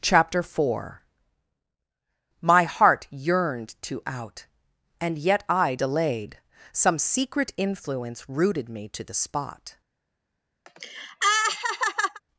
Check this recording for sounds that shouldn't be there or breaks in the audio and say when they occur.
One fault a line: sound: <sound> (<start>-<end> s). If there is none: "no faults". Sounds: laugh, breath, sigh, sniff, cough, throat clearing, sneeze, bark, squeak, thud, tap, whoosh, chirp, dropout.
sound: laugh (10.7-12.2 s)